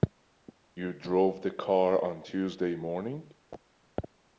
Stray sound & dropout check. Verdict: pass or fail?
pass